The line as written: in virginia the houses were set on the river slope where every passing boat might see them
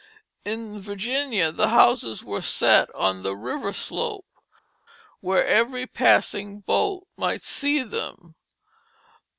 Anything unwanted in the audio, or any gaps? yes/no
no